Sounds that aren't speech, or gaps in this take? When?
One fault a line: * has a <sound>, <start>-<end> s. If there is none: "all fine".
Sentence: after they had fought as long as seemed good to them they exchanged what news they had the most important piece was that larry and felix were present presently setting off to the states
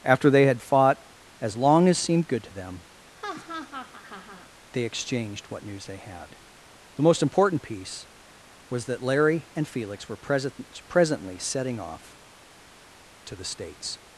* has a laugh, 3.2-4.5 s